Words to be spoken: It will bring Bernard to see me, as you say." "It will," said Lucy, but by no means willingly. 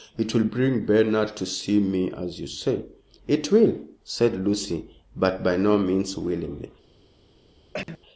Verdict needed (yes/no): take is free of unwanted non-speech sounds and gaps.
no